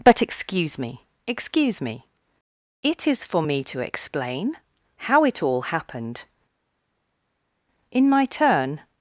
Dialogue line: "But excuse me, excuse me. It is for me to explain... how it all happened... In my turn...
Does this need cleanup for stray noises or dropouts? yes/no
no